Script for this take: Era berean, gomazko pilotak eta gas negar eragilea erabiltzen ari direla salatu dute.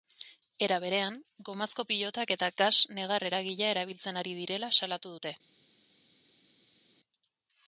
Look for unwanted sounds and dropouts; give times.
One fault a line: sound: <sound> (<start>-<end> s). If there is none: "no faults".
no faults